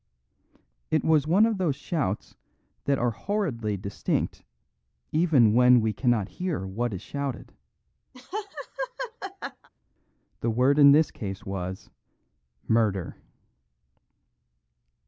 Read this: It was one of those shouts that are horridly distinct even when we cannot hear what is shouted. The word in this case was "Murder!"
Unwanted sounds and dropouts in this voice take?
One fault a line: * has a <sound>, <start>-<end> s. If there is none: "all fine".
* has a laugh, 8.1-9.7 s